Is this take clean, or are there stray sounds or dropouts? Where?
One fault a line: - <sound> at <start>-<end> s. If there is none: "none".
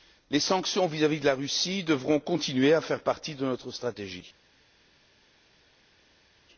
none